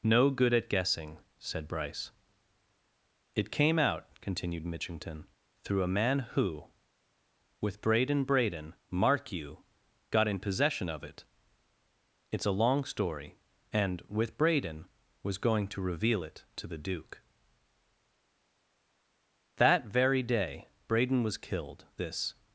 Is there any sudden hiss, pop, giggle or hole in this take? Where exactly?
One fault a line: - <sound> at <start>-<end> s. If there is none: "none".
none